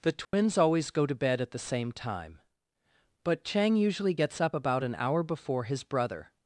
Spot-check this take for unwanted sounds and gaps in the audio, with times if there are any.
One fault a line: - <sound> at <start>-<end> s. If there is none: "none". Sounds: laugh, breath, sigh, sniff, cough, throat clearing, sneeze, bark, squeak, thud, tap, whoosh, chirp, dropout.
- dropout at 0.2-0.3 s